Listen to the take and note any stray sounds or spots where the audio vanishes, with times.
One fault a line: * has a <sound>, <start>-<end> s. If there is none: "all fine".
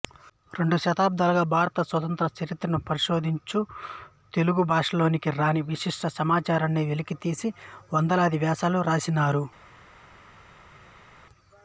all fine